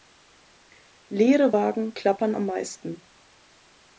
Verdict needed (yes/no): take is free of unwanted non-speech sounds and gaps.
yes